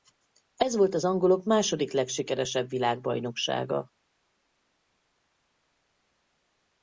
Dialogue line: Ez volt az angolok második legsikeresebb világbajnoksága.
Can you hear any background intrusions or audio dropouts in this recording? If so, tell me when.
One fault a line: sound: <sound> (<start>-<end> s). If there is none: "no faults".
no faults